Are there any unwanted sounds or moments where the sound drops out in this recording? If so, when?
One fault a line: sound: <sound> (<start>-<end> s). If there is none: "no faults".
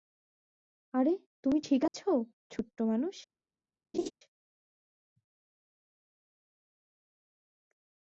sound: dropout (1.9-1.9 s)
sound: laugh (3.9-4.1 s)